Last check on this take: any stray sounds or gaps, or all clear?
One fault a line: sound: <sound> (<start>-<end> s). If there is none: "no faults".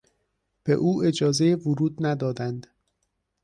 no faults